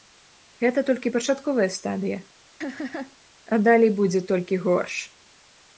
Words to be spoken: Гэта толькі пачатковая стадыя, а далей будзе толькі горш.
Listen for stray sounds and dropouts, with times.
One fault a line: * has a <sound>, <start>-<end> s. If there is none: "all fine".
* has a laugh, 2.6-3.2 s